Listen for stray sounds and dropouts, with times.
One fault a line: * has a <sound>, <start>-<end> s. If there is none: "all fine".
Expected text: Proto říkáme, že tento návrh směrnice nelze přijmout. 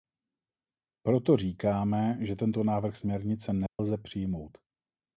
* has a dropout, 3.7-3.8 s